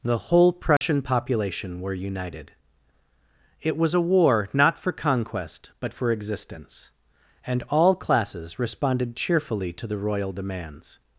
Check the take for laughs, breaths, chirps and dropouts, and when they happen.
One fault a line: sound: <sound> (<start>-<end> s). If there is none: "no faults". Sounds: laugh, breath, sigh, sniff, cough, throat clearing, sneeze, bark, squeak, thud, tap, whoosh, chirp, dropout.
sound: dropout (0.8-0.8 s)